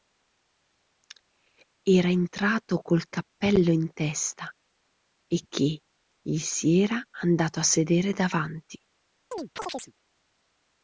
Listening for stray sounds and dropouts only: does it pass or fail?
fail